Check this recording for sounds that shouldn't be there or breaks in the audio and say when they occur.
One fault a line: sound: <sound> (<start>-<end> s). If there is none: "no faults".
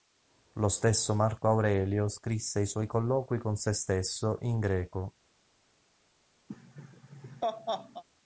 sound: laugh (6.5-8.0 s)